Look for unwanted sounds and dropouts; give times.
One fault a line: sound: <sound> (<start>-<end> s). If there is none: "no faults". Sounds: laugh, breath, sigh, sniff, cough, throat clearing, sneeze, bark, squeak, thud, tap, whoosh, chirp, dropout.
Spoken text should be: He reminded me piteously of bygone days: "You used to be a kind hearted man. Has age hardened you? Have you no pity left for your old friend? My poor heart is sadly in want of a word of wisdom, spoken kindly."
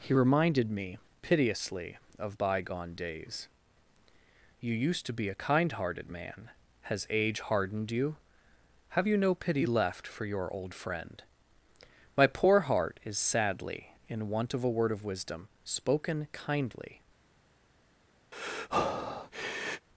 sound: breath (18.3-19.9 s)